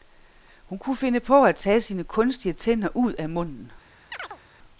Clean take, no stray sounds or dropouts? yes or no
no